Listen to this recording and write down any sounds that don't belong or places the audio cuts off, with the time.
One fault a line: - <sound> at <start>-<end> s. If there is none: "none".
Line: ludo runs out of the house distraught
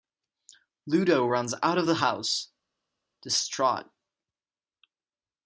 none